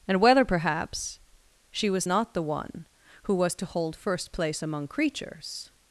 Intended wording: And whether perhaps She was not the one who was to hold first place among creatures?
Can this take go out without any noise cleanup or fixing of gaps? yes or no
yes